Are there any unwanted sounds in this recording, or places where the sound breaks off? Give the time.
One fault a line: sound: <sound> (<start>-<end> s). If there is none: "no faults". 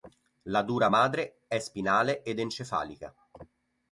no faults